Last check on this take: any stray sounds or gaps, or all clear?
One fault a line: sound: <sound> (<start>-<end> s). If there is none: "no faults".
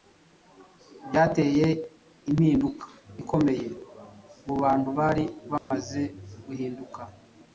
sound: dropout (5.6-5.7 s)